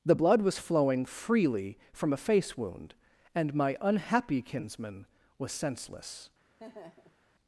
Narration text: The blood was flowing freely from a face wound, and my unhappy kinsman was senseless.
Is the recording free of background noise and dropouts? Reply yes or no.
no